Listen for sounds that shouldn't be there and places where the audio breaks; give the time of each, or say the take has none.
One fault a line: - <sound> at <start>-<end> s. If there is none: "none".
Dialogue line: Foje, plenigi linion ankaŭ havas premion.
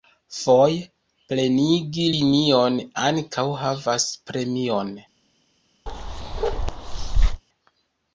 - bark at 5.9-7.4 s